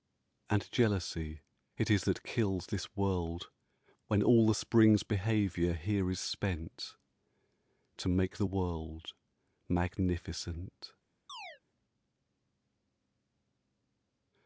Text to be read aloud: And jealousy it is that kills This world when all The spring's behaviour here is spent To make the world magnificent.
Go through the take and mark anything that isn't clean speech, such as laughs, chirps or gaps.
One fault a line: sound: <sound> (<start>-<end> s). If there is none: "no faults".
sound: chirp (11.3-11.6 s)